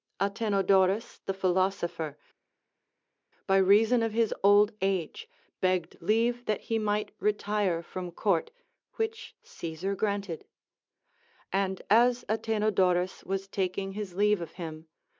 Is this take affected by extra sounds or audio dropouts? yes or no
no